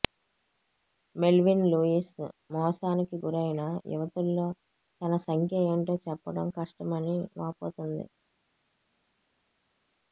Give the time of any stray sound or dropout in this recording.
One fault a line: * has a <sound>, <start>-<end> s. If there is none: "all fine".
all fine